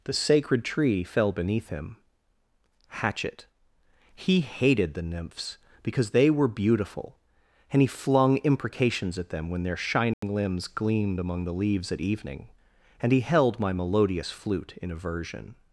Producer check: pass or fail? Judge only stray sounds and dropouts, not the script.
fail